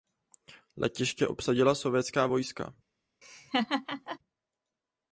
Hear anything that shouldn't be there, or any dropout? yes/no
yes